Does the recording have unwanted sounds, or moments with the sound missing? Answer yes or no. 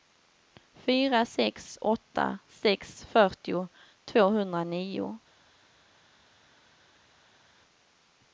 no